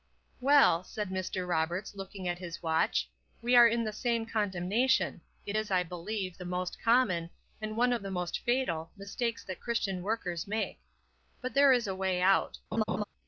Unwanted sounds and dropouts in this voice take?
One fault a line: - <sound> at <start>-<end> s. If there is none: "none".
- laugh at 12.7-13.0 s